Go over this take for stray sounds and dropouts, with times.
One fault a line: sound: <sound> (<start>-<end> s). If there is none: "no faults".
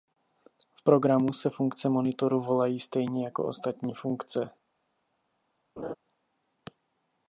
sound: laugh (5.8-5.9 s)